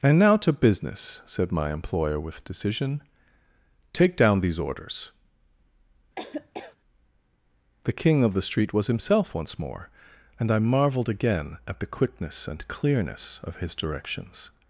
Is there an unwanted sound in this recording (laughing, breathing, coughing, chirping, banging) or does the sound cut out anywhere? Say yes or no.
yes